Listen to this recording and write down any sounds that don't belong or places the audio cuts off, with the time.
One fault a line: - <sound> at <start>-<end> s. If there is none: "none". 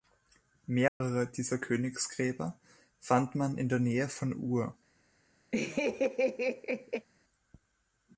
- dropout at 0.9-1.0 s
- laugh at 5.5-7.1 s